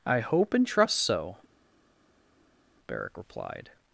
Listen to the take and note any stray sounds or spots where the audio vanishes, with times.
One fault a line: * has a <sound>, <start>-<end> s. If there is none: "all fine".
all fine